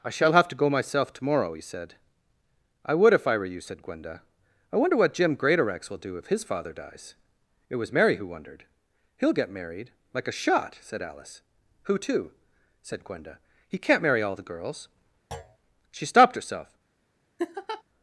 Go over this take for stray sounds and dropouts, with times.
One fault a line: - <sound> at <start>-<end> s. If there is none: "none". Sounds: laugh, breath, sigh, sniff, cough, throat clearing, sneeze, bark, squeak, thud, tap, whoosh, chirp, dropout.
- thud at 15.3-15.6 s
- laugh at 17.4-17.8 s